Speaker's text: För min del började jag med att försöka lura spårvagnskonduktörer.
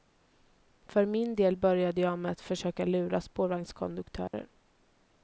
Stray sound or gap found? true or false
true